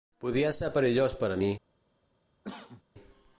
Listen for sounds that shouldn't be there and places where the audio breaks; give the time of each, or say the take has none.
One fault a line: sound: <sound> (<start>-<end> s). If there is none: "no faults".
sound: cough (2.4-2.8 s)